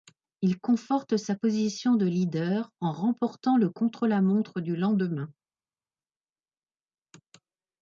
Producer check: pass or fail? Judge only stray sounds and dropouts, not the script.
pass